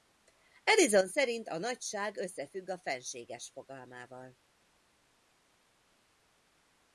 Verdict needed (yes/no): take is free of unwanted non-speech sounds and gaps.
yes